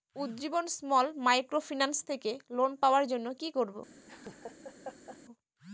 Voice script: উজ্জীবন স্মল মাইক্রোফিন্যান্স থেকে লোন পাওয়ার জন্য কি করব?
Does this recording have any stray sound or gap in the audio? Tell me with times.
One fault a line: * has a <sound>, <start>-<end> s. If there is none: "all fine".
* has a laugh, 4.1-5.2 s